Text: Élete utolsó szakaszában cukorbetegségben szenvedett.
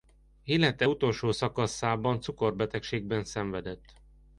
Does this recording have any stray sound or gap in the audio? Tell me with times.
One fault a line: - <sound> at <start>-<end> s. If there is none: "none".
none